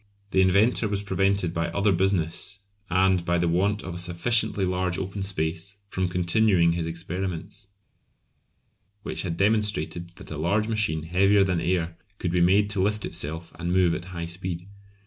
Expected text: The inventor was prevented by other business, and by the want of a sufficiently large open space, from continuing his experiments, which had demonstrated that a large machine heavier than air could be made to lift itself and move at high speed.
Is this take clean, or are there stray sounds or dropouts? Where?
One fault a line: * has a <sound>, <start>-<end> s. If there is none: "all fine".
all fine